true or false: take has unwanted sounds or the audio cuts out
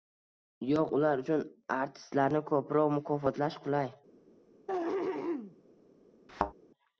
true